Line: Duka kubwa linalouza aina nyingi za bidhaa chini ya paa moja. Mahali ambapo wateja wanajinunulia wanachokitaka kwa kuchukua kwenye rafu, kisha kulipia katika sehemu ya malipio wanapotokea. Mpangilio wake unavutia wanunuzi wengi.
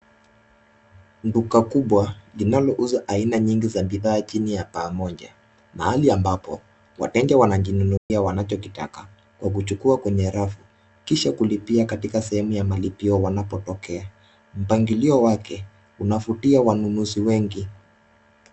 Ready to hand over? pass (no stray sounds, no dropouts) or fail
fail